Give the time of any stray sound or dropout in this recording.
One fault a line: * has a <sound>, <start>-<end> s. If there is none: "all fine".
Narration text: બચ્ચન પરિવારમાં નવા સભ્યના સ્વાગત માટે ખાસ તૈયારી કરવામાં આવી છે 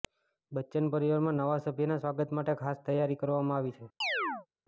* has a chirp, 4.0-4.5 s